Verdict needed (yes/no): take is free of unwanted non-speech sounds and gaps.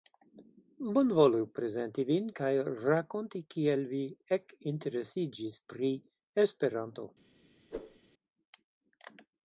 no